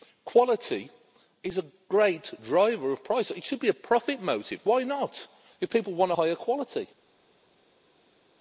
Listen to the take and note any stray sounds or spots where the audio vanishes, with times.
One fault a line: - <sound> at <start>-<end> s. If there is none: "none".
none